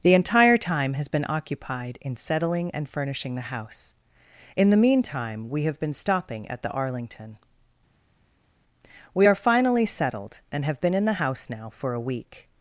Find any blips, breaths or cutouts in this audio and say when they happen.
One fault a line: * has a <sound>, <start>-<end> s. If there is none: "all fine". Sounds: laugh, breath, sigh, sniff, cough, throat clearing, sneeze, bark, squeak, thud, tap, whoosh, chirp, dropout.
all fine